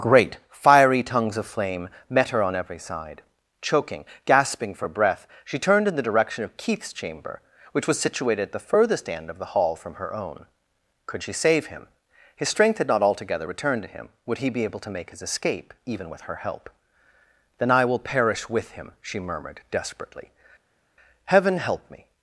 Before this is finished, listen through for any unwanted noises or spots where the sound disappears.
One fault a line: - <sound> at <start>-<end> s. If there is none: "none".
none